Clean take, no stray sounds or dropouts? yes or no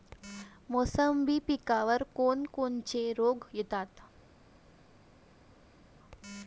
yes